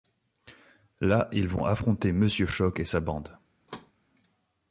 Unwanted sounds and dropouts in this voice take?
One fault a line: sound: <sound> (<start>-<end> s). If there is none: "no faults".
sound: thud (3.7-3.9 s)